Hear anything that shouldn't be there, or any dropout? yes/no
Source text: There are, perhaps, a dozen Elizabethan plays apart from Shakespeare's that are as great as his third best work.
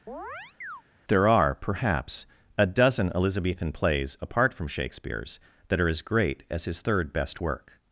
yes